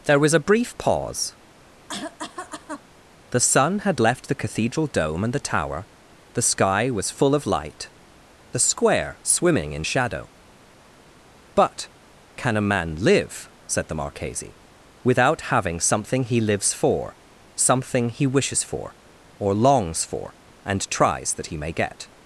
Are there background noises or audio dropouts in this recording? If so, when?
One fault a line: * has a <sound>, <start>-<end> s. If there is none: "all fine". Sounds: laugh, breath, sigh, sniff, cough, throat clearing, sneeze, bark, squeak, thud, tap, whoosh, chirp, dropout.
* has a cough, 1.9-2.8 s